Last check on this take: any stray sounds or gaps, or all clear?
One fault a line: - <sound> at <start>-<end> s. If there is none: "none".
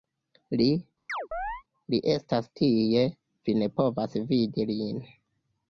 - chirp at 1.1-1.6 s